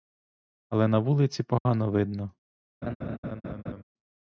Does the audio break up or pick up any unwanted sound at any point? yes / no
yes